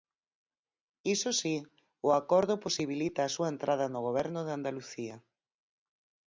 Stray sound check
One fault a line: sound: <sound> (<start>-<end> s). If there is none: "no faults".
no faults